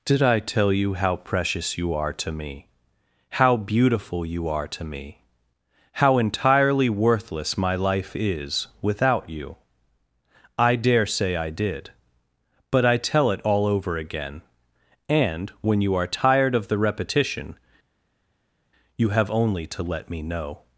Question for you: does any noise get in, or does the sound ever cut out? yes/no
no